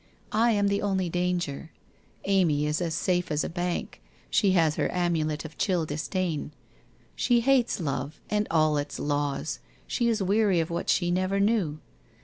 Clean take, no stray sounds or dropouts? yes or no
yes